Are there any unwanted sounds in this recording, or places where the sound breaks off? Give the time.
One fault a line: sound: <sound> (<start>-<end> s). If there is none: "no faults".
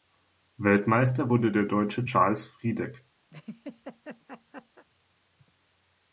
sound: laugh (3.3-4.9 s)